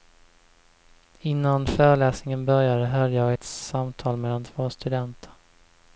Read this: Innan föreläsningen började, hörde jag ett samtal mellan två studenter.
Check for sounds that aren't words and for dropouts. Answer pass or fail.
pass